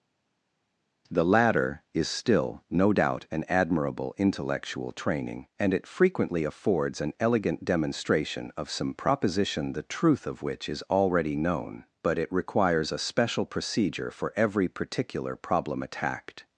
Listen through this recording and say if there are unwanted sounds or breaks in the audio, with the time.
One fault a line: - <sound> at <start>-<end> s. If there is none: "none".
none